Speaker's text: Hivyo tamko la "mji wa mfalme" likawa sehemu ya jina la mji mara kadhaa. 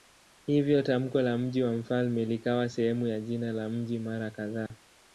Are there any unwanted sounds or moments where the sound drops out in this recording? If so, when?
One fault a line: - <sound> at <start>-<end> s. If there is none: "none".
- dropout at 4.7-4.7 s